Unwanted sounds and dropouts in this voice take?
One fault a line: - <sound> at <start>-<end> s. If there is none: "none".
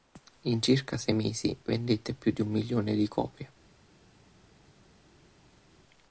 none